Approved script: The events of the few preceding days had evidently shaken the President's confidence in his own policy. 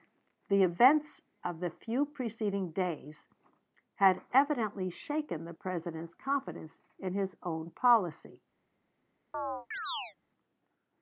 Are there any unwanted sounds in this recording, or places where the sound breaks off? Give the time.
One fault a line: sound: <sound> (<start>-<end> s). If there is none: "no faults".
sound: chirp (9.3-10.2 s)